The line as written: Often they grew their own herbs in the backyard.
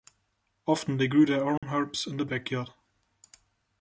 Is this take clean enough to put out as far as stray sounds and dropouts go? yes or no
no